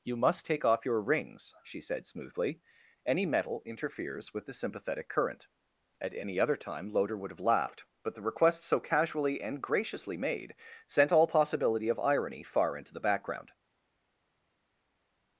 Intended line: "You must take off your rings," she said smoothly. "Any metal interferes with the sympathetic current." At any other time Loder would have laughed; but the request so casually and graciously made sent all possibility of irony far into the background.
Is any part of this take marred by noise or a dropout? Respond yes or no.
no